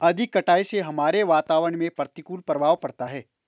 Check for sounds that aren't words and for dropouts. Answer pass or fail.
pass